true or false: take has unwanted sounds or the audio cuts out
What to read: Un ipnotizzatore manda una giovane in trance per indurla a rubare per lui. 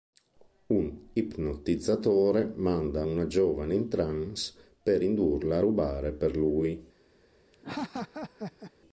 true